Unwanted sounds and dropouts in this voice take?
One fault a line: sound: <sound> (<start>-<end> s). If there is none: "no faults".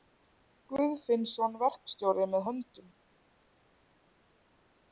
no faults